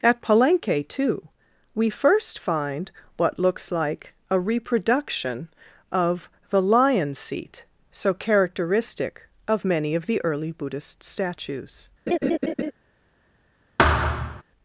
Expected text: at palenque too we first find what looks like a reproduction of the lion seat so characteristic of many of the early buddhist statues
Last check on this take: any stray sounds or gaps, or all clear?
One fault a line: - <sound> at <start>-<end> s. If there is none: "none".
- laugh at 12.1-12.7 s
- thud at 13.8-14.4 s